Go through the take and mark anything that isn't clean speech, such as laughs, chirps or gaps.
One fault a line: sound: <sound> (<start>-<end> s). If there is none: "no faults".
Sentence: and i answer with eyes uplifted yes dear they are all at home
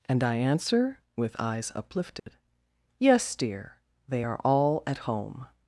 sound: dropout (2.2-2.3 s)